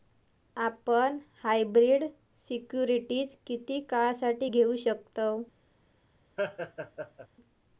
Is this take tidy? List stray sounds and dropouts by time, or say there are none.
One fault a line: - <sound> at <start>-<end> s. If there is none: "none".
- laugh at 6.4-7.3 s